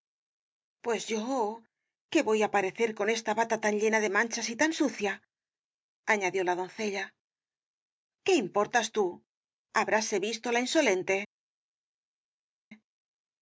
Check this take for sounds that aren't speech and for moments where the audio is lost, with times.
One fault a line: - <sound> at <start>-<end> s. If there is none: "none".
none